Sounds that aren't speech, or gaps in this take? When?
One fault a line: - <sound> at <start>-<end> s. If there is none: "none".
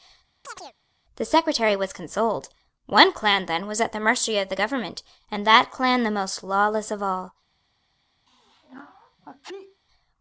- chirp at 0.4-0.7 s
- sneeze at 8.3-9.8 s